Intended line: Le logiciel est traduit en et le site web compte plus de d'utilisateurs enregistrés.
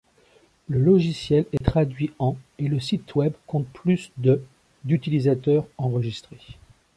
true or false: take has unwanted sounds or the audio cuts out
true